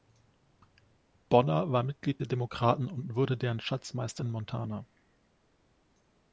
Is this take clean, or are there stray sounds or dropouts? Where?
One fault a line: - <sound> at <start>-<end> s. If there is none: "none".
none